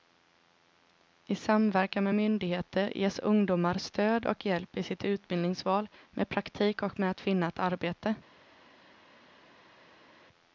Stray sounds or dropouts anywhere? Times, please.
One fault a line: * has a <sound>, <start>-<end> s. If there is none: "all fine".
all fine